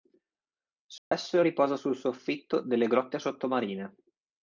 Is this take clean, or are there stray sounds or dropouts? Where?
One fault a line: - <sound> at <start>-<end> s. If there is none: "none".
- dropout at 1.0-1.1 s